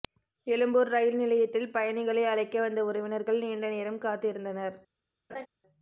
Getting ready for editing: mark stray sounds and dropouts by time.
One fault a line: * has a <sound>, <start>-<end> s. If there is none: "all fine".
* has a laugh, 5.3-5.5 s